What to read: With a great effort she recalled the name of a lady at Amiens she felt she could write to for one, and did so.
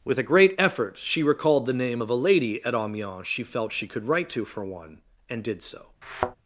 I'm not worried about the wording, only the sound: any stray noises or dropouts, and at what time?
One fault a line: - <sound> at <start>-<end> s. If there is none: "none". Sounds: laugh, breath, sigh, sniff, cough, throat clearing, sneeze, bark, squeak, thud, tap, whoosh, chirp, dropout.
- thud at 6.0-6.4 s